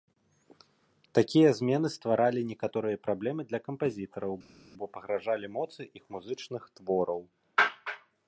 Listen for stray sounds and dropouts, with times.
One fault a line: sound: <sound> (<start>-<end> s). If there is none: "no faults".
no faults